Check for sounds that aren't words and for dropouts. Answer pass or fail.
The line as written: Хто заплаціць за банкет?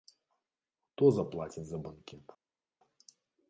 pass